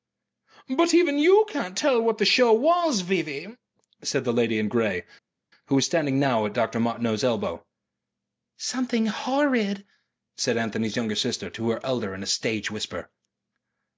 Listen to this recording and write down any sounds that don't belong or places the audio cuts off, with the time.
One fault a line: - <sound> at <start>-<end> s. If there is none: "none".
none